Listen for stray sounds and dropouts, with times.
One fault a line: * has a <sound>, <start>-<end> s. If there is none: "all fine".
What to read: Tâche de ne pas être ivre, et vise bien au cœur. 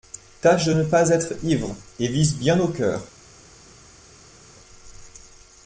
all fine